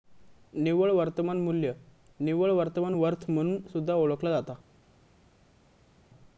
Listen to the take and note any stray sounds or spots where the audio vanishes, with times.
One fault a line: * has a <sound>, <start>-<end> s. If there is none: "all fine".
all fine